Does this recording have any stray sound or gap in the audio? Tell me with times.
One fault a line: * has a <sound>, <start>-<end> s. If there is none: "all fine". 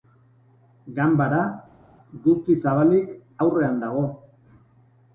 all fine